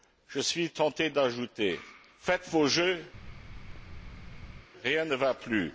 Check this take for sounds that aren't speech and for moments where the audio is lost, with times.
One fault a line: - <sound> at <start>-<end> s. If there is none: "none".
- thud at 3.1-4.7 s